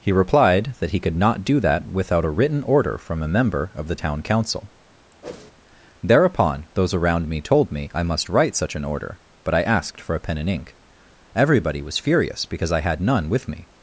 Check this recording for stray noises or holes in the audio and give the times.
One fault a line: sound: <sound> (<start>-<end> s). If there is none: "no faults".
sound: whoosh (5.2-5.5 s)